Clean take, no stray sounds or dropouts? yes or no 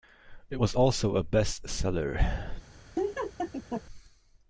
no